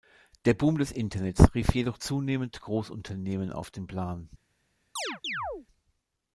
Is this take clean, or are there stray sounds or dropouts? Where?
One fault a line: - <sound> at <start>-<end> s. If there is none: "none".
- chirp at 5.0-5.7 s